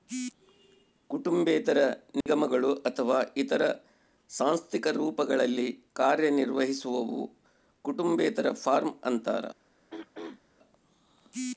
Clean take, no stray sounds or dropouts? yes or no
no